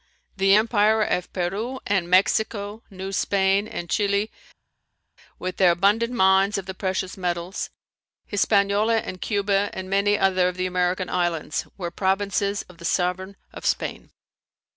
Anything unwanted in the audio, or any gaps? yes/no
no